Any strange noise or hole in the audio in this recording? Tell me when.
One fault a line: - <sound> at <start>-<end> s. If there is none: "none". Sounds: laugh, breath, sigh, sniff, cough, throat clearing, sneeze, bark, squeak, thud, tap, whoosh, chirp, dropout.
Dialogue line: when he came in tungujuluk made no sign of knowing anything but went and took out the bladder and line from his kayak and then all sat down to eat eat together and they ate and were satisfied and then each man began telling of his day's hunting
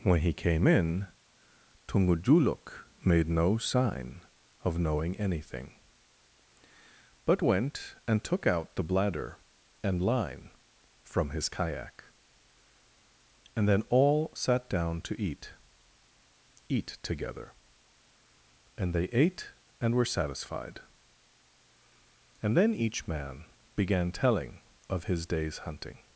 none